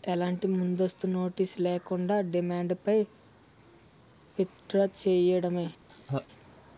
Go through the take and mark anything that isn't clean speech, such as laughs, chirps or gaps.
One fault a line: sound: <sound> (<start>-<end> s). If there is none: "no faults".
sound: laugh (5.9-6.3 s)